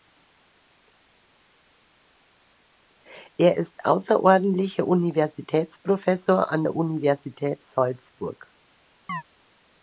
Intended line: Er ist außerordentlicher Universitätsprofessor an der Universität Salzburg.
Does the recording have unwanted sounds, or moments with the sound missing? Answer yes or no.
yes